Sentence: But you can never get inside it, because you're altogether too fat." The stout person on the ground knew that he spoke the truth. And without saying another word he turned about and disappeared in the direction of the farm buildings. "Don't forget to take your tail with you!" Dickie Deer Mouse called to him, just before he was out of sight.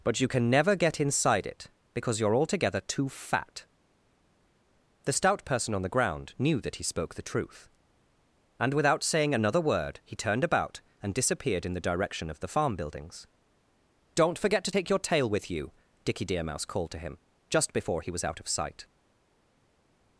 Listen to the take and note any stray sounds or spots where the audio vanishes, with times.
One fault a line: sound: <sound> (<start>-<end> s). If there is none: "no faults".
no faults